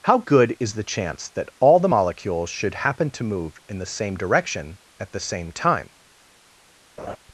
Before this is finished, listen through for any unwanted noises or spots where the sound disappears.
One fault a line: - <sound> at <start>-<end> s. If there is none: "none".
- laugh at 7.0-7.2 s